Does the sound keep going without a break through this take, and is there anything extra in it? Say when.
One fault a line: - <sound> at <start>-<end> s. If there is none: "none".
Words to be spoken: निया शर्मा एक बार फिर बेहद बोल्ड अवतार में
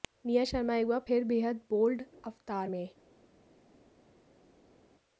none